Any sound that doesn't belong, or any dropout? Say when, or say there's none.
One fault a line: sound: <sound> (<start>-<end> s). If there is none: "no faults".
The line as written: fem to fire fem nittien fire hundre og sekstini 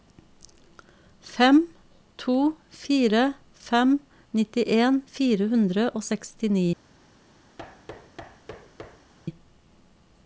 sound: thud (7.6-9.1 s)